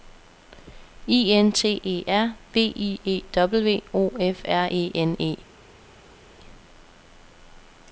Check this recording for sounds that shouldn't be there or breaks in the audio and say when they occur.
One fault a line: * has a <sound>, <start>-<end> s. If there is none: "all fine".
all fine